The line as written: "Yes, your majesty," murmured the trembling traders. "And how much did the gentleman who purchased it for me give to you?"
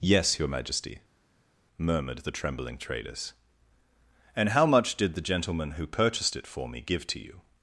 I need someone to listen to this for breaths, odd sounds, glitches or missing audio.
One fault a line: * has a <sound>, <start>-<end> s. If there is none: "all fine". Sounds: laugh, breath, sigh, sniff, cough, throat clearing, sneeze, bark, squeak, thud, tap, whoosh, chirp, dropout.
all fine